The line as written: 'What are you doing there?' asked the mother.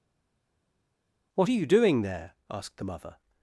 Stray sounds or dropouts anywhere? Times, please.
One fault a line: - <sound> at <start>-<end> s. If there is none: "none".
none